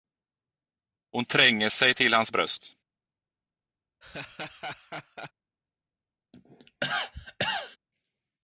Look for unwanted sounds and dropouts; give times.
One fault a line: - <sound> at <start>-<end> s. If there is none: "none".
- laugh at 4.0-5.3 s
- cough at 6.3-7.8 s